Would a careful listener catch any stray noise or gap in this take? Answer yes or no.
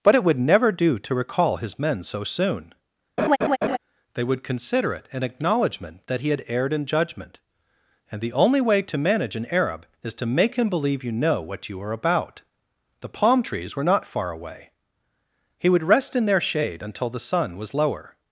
yes